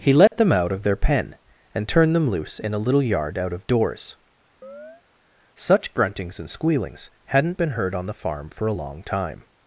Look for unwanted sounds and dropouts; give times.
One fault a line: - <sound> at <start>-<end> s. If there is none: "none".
- dropout at 0.3-0.3 s
- chirp at 4.6-5.0 s